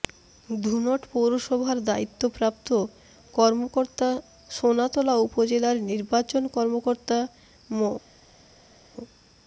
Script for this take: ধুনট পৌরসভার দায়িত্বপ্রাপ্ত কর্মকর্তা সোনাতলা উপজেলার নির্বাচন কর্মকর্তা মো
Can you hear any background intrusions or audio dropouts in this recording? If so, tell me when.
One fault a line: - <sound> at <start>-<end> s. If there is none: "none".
none